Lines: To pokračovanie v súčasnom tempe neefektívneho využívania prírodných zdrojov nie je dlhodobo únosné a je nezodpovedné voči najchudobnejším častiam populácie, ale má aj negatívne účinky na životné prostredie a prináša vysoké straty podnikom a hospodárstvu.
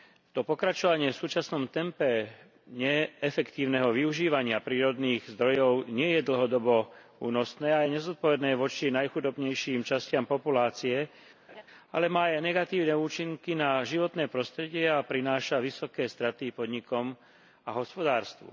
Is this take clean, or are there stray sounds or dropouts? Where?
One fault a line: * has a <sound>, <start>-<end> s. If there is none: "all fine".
* has a laugh, 11.5-11.6 s